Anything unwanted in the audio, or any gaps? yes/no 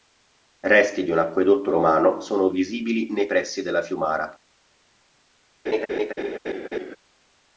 yes